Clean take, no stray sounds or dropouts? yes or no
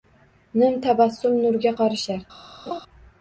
no